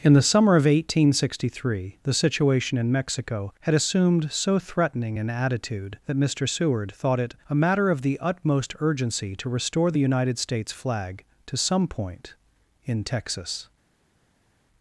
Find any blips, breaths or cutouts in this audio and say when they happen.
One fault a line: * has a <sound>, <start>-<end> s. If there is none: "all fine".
all fine